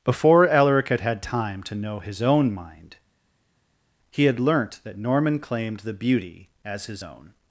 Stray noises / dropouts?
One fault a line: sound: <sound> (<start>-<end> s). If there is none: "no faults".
no faults